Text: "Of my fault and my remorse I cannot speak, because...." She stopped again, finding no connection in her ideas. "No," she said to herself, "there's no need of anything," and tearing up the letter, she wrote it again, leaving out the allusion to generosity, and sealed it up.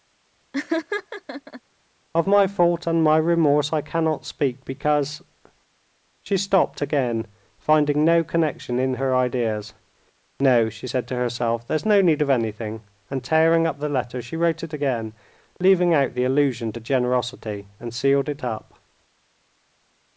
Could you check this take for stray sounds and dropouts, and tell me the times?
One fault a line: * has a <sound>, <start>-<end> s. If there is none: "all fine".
* has a laugh, 0.5-1.6 s